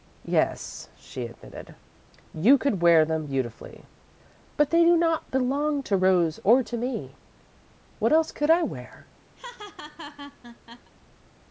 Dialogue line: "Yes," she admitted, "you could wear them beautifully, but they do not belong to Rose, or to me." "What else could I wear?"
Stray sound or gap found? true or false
true